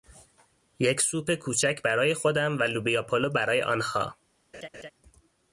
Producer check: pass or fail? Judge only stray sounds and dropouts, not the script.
fail